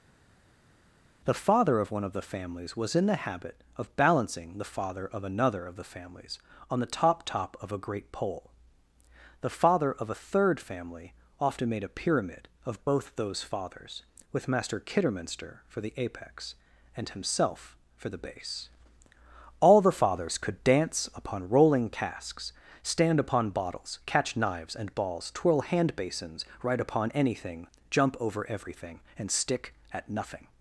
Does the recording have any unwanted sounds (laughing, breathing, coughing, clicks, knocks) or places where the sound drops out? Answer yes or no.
no